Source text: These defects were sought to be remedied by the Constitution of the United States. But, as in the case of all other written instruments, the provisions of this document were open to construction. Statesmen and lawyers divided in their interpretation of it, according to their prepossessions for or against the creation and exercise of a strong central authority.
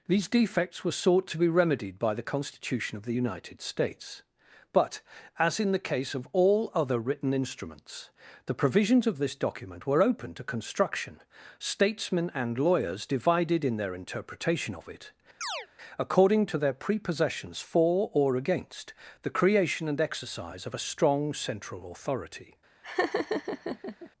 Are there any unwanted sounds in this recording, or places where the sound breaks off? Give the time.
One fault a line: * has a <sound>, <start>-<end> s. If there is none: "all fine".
* has a chirp, 15.4-15.7 s
* has a laugh, 22.8-24.1 s